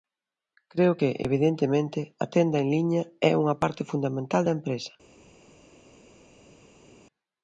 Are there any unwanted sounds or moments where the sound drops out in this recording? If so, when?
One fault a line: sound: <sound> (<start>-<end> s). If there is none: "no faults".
no faults